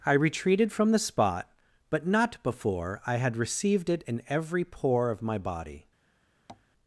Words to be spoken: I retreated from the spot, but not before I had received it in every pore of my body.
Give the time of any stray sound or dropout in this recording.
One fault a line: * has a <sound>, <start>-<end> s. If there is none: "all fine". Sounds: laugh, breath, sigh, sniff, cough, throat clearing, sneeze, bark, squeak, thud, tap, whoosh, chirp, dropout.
* has a tap, 6.5-6.7 s